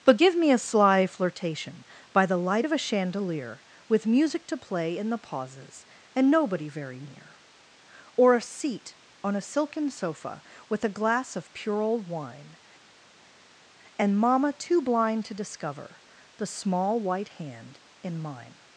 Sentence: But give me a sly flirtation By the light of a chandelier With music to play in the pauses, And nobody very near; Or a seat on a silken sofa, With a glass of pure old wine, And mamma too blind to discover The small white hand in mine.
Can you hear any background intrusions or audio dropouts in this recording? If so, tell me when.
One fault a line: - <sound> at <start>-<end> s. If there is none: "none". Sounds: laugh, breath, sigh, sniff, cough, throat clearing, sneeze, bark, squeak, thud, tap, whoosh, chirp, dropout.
none